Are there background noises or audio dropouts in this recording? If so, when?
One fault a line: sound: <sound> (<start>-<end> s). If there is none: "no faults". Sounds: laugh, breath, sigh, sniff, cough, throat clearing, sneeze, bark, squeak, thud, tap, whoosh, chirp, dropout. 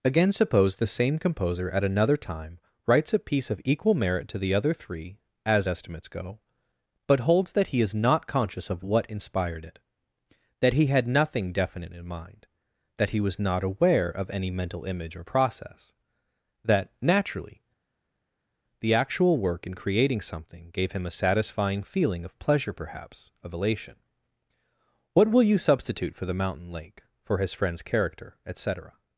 no faults